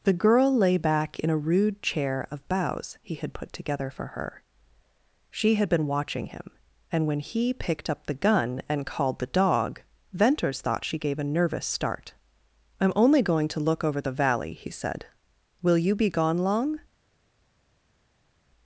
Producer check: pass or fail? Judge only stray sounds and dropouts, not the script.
pass